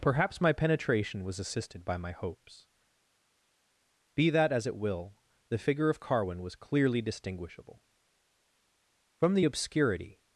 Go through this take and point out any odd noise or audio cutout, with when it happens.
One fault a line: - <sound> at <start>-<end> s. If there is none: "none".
none